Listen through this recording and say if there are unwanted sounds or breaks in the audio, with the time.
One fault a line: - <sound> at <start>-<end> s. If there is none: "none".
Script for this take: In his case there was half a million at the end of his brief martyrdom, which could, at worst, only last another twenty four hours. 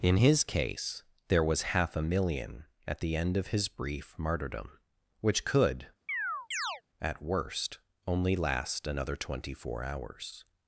- chirp at 6.1-6.8 s